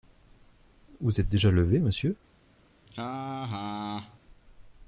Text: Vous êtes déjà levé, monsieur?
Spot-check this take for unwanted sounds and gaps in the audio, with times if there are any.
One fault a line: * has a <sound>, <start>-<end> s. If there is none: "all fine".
* has a laugh, 2.9-4.2 s